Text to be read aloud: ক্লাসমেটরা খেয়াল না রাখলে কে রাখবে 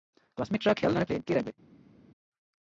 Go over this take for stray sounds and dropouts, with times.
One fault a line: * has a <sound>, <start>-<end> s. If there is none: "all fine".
all fine